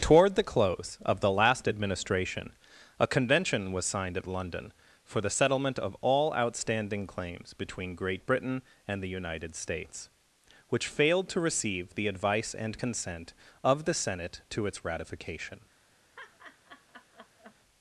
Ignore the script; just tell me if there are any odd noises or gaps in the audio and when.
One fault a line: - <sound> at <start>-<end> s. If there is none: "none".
- laugh at 16.2-17.6 s